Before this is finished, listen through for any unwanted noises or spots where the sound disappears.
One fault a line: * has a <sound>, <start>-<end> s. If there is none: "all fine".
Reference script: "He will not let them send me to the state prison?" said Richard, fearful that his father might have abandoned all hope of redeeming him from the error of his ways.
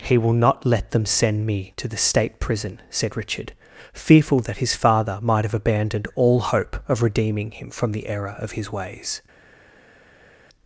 all fine